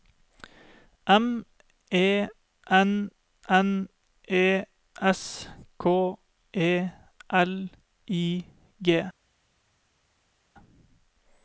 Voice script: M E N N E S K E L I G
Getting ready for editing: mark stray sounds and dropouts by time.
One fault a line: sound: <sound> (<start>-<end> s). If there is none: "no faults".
no faults